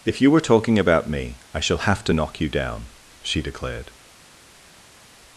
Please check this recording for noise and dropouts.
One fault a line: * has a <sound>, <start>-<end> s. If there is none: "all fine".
all fine